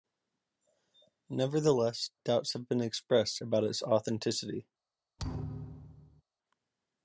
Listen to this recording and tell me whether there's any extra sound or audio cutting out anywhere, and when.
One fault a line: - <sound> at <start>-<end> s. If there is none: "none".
- thud at 5.2-6.2 s